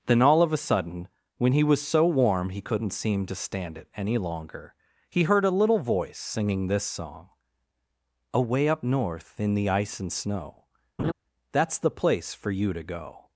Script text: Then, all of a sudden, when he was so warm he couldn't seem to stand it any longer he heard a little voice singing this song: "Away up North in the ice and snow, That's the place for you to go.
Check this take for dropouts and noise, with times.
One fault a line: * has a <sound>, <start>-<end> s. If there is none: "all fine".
* has a laugh, 11.0-11.1 s